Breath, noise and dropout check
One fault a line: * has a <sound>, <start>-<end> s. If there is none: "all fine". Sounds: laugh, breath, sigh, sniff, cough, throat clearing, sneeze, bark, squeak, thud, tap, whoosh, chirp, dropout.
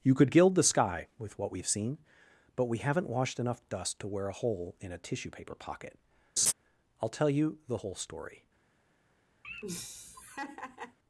* has a laugh, 6.4-6.5 s
* has a laugh, 9.4-11.0 s